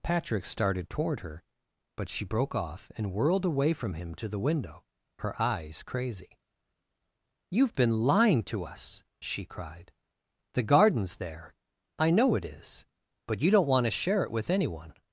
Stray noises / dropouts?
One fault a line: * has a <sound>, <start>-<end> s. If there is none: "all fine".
all fine